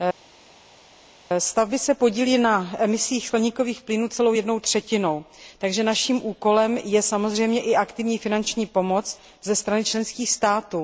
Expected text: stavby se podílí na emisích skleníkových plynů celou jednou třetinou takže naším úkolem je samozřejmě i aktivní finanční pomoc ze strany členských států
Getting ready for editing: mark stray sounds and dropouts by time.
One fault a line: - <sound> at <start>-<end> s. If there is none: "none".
none